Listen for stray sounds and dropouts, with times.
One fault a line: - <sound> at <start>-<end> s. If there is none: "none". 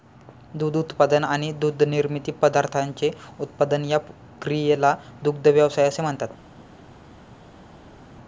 none